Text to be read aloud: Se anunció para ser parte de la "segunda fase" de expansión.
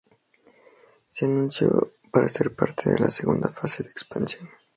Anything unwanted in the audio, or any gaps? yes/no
no